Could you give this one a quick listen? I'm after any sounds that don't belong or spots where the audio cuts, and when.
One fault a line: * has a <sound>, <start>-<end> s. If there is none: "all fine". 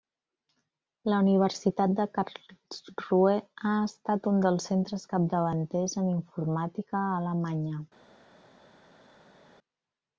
all fine